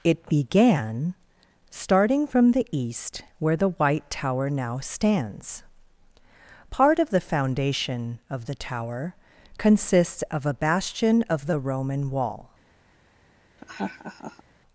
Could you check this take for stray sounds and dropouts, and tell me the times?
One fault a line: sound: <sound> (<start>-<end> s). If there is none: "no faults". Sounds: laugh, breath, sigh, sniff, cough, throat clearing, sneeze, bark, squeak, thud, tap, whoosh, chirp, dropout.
sound: laugh (13.6-14.4 s)